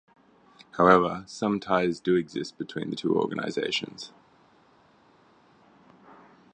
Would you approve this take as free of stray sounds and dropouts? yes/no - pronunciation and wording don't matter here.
yes